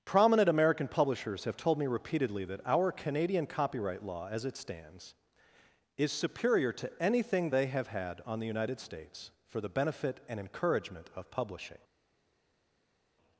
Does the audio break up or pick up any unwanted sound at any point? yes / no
no